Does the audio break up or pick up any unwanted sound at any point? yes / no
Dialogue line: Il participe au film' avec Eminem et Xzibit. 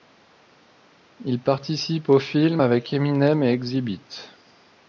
no